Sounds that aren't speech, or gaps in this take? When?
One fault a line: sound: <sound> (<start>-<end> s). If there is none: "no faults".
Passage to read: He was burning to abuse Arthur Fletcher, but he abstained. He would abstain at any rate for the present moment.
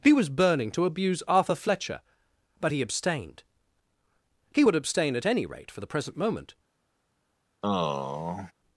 sound: sigh (7.6-8.5 s)